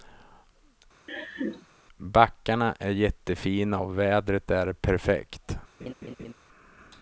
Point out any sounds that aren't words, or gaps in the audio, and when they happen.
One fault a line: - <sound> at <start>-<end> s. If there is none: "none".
- laugh at 1.1-1.7 s
- laugh at 5.8-6.3 s